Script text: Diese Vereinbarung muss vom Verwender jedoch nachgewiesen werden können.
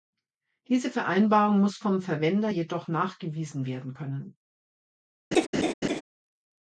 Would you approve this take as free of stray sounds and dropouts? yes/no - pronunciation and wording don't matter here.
no